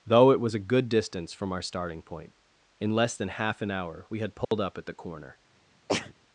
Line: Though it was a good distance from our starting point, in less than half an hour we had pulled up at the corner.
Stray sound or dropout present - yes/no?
yes